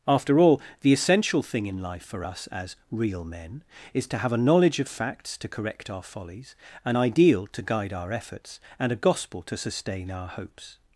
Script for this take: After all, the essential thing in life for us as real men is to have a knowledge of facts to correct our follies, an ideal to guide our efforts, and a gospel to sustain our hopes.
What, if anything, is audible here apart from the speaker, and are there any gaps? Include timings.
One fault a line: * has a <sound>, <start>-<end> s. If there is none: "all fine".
all fine